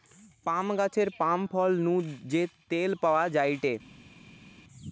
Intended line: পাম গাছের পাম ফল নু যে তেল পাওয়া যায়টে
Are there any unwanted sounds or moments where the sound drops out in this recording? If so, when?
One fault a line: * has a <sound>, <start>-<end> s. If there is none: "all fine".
all fine